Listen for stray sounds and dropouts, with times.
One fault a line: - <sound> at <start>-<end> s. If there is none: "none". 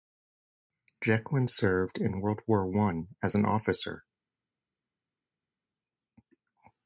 none